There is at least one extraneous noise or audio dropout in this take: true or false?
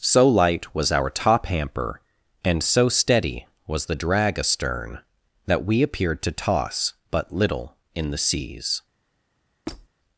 true